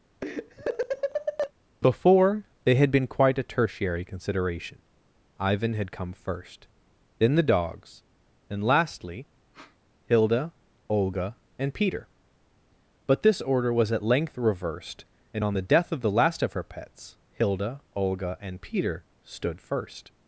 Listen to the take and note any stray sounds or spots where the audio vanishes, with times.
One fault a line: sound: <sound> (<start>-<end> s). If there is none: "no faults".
sound: laugh (0.2-1.5 s)
sound: sniff (9.5-9.8 s)